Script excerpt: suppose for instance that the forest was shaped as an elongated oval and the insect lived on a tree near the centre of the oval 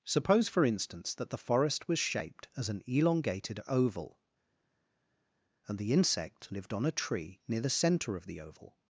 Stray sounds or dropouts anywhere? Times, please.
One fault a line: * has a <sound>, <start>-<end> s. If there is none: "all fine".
all fine